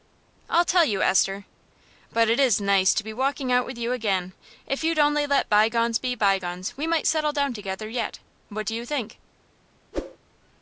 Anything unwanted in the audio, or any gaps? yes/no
yes